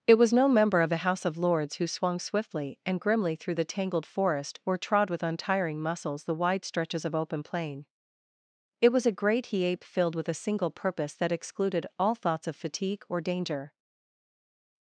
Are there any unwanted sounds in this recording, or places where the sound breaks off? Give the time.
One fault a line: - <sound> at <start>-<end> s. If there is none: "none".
none